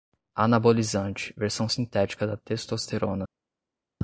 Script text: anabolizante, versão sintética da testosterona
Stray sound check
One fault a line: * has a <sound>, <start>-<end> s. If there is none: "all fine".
all fine